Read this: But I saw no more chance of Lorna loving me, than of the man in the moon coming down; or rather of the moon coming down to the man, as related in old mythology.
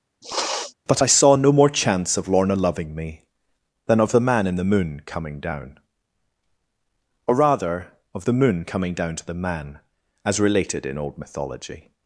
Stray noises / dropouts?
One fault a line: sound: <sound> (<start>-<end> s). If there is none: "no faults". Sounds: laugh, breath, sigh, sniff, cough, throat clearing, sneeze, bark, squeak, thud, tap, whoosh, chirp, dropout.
sound: sniff (0.2-0.7 s)